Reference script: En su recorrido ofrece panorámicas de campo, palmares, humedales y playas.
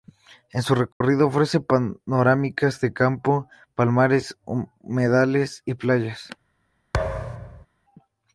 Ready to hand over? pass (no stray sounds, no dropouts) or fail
fail